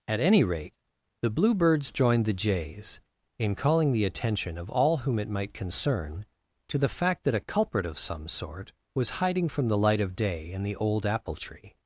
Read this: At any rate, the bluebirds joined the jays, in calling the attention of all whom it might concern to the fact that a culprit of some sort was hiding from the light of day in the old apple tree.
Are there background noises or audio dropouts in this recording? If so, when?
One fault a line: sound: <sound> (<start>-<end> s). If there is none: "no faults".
no faults